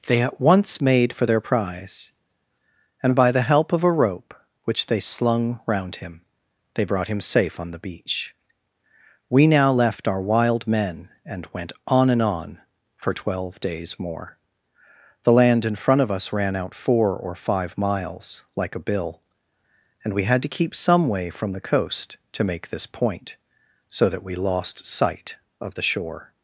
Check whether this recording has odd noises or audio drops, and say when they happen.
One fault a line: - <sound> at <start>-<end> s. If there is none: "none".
none